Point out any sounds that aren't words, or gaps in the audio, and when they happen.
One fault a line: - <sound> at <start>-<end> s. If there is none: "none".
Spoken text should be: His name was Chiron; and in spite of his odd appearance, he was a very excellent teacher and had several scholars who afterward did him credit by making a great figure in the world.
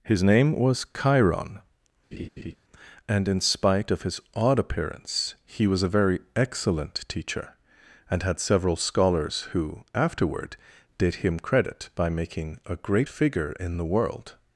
- laugh at 2.1-2.6 s